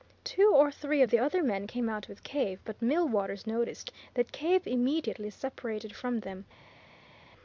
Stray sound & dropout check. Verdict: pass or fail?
pass